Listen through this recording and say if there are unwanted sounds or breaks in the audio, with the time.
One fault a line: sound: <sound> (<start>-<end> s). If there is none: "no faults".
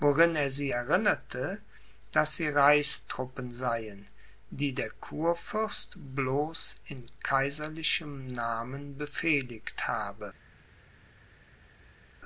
no faults